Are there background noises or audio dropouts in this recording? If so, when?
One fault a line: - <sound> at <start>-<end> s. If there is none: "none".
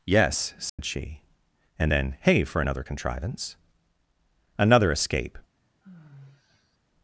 - dropout at 0.7-0.8 s
- sigh at 5.6-6.8 s